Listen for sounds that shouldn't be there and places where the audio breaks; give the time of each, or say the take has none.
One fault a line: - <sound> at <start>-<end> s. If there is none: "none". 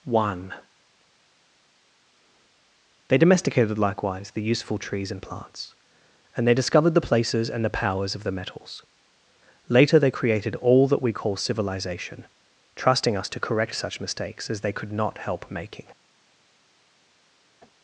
none